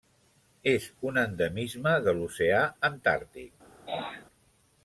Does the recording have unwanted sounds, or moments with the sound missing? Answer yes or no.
yes